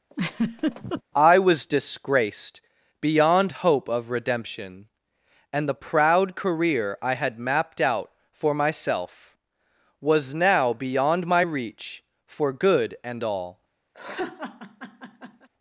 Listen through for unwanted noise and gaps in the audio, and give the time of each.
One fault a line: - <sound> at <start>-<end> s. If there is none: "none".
- laugh at 0.1-1.0 s
- laugh at 13.9-15.5 s